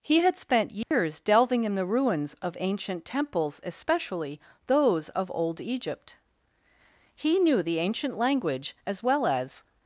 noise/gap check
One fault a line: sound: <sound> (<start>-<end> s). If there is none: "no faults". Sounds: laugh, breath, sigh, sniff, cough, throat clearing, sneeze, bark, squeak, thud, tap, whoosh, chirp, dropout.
sound: dropout (0.8-0.9 s)